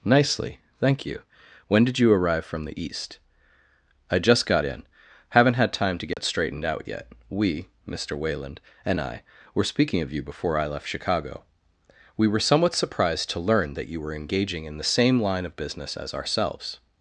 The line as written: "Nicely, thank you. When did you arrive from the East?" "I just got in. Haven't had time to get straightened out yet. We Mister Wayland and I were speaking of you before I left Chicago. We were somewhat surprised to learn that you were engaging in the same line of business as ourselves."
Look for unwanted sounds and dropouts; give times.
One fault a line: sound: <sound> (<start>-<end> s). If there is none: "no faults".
sound: dropout (6.1-6.2 s)